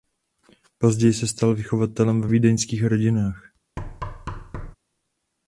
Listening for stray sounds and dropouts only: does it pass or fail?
fail